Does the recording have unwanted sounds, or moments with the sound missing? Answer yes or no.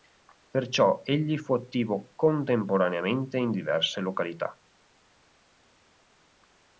no